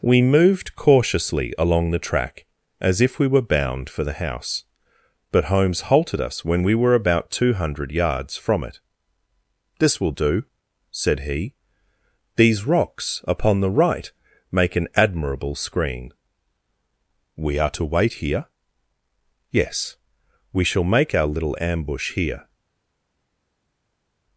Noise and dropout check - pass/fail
pass